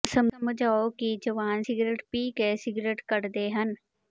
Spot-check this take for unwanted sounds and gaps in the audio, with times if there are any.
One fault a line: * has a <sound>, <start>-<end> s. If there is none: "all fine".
all fine